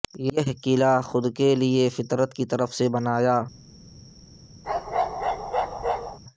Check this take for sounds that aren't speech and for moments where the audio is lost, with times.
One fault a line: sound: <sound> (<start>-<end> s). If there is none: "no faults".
sound: bark (4.6-6.2 s)